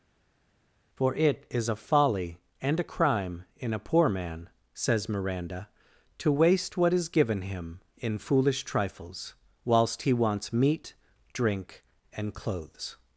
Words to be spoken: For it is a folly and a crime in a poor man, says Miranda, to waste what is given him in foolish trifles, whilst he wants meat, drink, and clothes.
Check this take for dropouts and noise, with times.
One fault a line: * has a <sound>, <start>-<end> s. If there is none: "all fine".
all fine